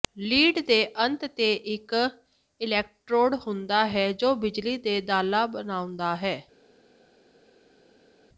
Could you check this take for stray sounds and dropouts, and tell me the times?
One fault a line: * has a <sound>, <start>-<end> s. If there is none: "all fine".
all fine